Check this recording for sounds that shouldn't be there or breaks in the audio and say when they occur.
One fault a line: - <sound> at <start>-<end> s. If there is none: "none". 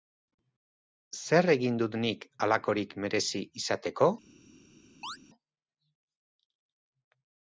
- chirp at 5.0-5.2 s